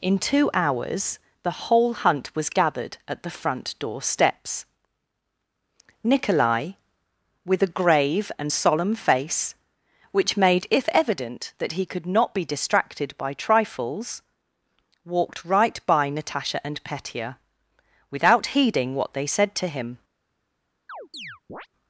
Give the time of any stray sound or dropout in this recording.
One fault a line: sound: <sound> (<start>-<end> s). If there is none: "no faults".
sound: chirp (20.9-21.7 s)